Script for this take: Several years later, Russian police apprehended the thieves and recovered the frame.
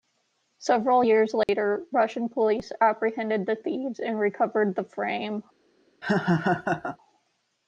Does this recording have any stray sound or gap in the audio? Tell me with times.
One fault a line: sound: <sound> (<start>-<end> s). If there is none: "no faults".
sound: dropout (1.4-1.5 s)
sound: laugh (6.0-7.0 s)